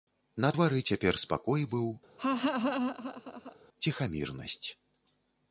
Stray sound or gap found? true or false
true